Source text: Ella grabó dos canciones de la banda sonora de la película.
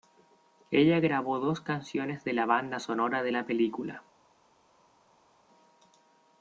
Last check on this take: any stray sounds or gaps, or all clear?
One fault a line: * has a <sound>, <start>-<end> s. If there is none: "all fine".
all fine